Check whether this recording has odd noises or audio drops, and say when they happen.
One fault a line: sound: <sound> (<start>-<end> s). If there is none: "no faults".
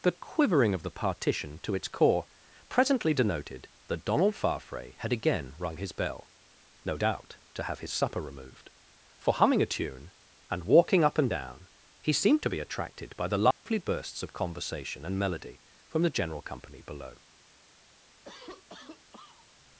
sound: dropout (13.5-13.7 s)
sound: cough (18.2-19.6 s)